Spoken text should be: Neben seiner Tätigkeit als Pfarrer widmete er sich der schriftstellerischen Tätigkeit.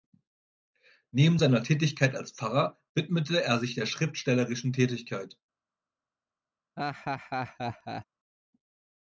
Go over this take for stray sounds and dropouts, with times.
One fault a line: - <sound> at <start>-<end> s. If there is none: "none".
- laugh at 6.8-8.1 s